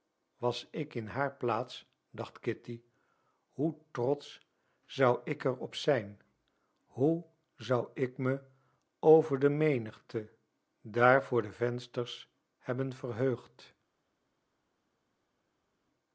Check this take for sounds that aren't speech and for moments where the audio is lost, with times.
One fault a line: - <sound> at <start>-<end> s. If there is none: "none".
none